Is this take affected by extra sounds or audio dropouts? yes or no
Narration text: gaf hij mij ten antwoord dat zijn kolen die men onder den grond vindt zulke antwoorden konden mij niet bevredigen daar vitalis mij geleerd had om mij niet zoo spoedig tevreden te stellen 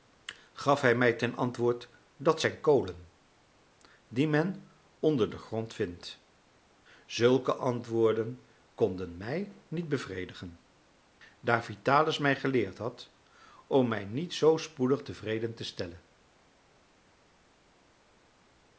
no